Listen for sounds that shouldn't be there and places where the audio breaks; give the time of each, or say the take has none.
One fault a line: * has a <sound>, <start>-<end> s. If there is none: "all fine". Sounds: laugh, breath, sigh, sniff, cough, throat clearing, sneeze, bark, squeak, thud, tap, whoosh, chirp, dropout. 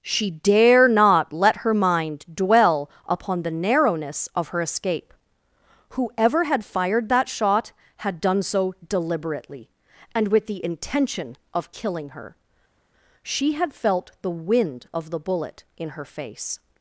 all fine